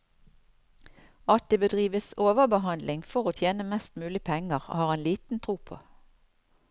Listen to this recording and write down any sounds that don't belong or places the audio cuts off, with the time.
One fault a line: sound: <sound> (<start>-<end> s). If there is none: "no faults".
no faults